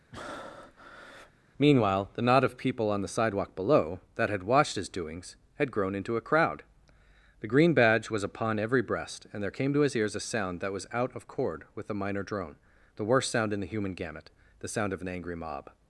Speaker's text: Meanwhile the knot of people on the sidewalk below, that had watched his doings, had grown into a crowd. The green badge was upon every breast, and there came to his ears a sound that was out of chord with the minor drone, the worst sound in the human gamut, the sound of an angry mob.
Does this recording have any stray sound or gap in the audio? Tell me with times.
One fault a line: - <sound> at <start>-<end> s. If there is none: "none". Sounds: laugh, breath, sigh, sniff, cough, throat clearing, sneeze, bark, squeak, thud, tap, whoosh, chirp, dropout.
- breath at 0.1-1.3 s